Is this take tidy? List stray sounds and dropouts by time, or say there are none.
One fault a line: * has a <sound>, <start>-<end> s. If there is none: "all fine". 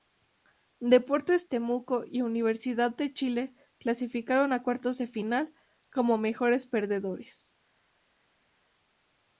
all fine